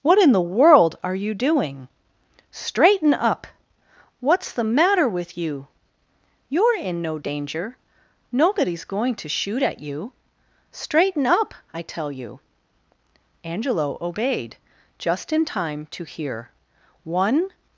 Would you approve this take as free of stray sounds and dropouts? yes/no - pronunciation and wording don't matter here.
yes